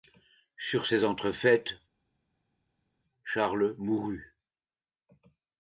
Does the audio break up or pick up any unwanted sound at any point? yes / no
no